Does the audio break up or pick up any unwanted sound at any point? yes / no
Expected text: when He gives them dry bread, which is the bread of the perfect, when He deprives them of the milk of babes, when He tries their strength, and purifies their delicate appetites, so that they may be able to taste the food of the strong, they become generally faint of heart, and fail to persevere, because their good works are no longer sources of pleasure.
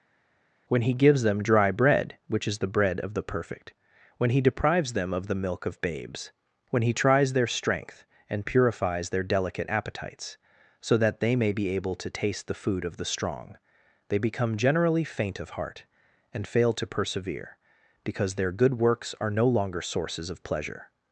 no